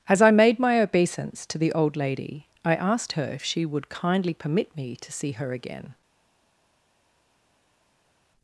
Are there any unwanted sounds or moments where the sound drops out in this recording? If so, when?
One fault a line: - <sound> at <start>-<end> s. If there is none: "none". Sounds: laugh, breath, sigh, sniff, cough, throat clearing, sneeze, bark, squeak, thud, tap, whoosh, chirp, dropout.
none